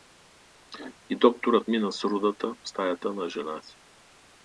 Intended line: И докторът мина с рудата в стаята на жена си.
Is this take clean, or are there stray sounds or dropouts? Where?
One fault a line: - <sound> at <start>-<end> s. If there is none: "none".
none